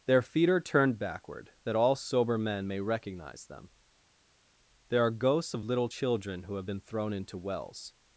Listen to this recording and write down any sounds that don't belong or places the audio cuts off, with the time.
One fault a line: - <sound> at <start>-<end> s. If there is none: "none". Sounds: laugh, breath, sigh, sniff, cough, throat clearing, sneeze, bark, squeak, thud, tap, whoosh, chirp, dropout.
none